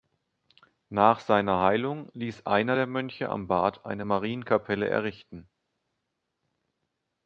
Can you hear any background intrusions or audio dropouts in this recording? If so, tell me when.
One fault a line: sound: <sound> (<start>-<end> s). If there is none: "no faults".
no faults